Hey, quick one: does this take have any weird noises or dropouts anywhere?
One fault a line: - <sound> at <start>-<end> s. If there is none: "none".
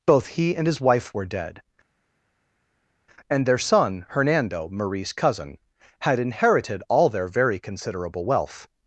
none